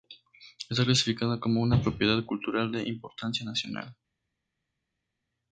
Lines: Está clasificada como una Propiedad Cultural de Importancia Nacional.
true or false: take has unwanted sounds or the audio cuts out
false